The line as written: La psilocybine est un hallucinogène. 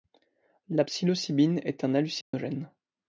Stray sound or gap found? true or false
true